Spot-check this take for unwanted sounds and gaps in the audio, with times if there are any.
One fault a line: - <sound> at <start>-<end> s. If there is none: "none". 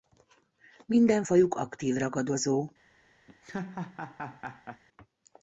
- laugh at 3.3-4.8 s